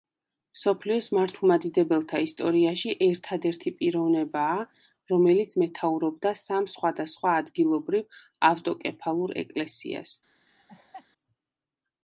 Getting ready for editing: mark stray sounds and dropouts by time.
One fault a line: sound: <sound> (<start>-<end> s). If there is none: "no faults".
sound: laugh (10.5-11.1 s)